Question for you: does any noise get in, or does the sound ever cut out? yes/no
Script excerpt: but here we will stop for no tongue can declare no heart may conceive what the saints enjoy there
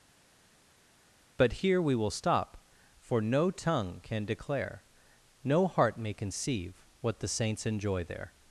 no